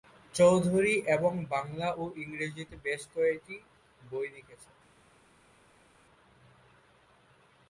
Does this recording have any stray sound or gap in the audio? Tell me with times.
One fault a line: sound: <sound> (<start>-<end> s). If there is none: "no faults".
no faults